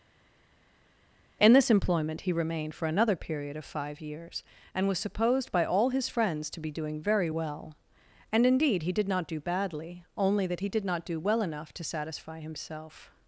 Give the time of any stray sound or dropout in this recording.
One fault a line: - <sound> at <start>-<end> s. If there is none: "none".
none